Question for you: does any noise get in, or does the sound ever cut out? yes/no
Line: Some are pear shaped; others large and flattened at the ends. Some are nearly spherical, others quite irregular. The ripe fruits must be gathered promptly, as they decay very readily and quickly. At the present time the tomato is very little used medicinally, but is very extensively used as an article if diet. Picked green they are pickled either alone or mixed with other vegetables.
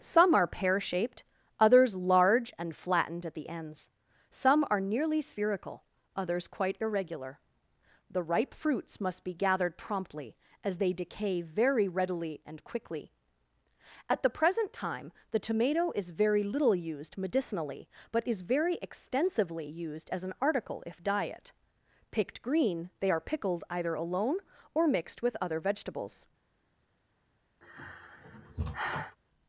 yes